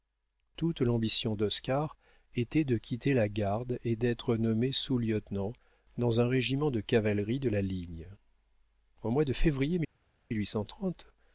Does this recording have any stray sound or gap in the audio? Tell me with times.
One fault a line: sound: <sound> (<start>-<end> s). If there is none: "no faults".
no faults